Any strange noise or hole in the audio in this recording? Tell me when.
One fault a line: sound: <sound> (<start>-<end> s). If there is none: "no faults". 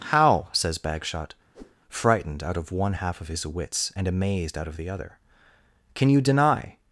sound: whoosh (1.5-1.8 s)